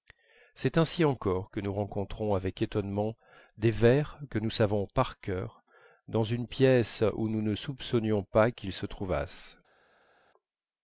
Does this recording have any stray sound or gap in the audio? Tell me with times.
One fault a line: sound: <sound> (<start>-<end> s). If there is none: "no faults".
no faults